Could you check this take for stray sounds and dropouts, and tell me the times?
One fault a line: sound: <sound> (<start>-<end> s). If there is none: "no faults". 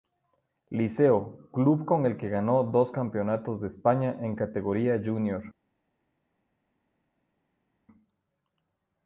no faults